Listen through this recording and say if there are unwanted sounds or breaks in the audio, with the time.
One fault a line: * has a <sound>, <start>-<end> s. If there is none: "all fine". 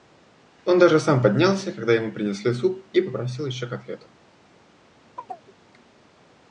* has a chirp, 5.2-5.5 s